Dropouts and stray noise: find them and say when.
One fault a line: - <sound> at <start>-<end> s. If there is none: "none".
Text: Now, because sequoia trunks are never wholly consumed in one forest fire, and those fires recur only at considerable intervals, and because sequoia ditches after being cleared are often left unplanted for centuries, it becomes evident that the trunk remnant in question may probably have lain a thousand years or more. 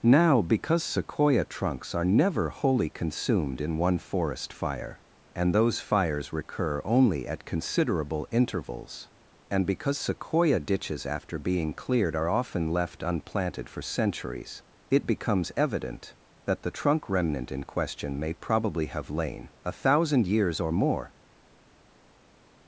none